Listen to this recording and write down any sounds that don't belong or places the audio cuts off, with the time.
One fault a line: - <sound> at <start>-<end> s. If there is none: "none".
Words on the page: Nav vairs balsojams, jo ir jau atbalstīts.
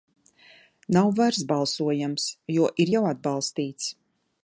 none